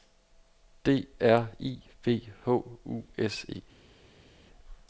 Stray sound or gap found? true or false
false